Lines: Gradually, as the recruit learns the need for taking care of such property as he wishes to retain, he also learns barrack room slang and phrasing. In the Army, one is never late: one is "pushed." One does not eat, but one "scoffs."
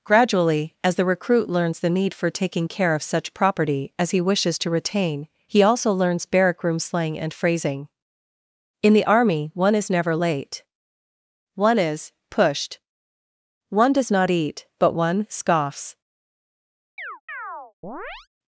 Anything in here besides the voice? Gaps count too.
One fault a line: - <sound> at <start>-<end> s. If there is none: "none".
- chirp at 17.0-18.3 s